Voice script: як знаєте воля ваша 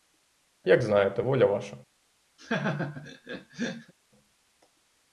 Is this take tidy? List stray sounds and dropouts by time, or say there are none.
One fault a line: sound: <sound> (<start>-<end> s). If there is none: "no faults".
sound: laugh (2.4-3.9 s)